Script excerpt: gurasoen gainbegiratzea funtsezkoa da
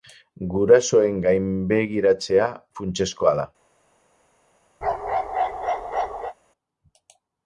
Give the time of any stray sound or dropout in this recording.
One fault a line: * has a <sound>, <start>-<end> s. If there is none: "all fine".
* has a bark, 4.8-6.3 s